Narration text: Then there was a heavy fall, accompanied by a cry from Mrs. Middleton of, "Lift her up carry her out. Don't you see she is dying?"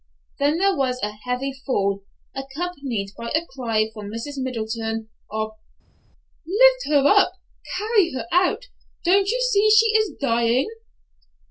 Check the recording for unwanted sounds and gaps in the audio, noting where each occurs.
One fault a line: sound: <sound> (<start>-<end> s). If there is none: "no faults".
no faults